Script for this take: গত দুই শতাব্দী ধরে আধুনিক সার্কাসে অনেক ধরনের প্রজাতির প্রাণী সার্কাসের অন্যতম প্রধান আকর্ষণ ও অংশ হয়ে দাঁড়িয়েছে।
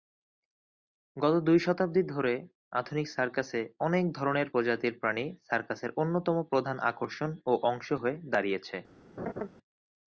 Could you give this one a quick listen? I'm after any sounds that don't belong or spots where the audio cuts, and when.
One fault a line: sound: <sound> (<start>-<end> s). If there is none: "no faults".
sound: laugh (9.2-9.5 s)